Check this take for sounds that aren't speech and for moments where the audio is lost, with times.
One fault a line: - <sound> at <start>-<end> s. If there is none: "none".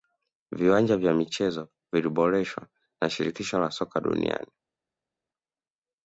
none